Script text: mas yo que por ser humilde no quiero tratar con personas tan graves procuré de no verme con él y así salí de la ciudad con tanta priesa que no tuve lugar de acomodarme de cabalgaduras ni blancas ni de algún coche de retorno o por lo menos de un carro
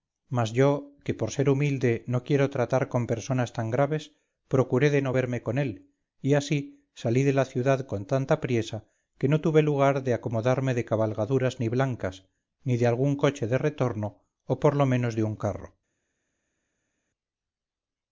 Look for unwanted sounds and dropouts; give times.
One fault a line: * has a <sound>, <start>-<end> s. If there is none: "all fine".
all fine